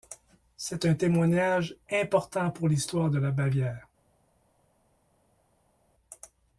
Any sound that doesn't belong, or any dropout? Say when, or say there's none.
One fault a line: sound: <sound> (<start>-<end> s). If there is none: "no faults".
no faults